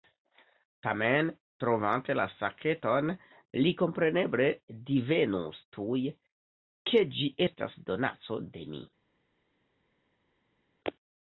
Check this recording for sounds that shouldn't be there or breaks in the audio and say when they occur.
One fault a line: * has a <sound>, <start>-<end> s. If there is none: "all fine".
all fine